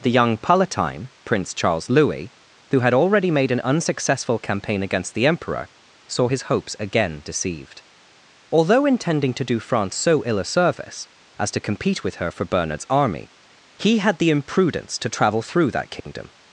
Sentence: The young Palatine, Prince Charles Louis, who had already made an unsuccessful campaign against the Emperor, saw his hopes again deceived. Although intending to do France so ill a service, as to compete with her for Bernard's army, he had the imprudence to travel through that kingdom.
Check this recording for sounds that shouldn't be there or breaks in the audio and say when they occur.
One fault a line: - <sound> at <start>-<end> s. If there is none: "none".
- dropout at 16.0-16.1 s